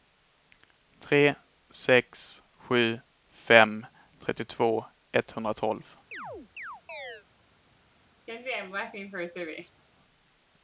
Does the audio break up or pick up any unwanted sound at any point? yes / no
yes